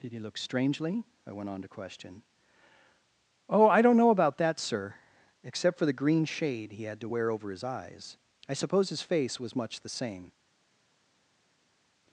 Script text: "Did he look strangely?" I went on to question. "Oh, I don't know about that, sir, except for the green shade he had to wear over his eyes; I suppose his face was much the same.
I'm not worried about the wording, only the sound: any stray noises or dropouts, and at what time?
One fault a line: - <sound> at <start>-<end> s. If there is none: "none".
none